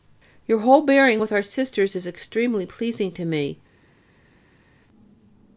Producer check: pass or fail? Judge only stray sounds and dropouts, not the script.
pass